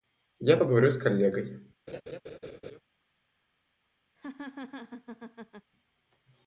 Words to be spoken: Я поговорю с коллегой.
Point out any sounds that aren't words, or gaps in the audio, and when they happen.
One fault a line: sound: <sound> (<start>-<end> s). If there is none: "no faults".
sound: laugh (1.9-2.8 s)
sound: laugh (4.2-5.7 s)